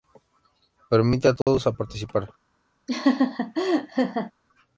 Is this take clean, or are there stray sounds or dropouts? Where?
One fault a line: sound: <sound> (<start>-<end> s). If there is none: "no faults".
sound: dropout (1.4-1.5 s)
sound: laugh (2.9-4.3 s)